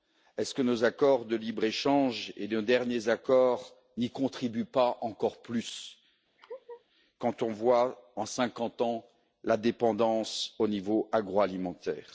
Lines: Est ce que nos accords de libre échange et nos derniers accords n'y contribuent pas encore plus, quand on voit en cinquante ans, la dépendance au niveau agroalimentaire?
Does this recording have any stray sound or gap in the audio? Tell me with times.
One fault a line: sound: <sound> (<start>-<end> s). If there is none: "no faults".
sound: laugh (6.4-6.8 s)